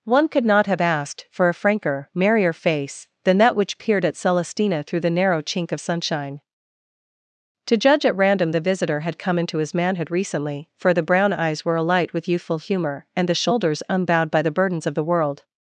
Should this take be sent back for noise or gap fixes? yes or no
no